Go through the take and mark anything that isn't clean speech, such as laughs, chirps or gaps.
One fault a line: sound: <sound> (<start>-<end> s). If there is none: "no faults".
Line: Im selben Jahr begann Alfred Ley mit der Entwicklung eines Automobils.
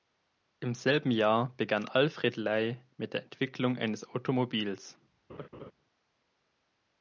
sound: laugh (5.3-5.7 s)